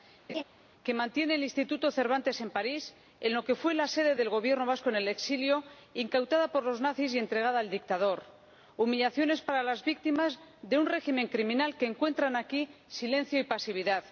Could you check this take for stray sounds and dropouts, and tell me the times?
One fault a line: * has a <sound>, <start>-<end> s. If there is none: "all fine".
* has a laugh, 0.3-0.4 s